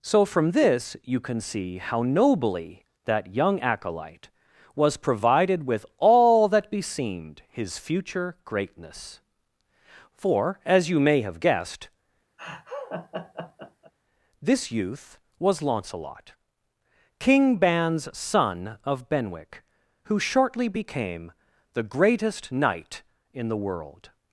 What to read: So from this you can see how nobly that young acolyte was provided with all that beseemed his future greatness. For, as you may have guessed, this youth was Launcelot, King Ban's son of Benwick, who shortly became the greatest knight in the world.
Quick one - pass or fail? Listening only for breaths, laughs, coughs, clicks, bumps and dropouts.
fail